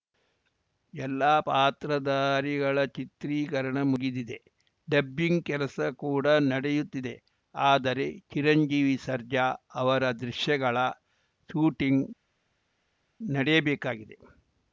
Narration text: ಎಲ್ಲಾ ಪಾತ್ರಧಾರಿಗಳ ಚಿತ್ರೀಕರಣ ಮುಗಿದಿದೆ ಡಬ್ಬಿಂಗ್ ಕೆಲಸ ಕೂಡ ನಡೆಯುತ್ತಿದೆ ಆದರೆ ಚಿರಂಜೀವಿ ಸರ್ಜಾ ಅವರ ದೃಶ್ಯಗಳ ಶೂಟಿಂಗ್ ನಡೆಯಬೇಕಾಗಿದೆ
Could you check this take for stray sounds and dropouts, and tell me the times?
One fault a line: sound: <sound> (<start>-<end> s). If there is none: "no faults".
no faults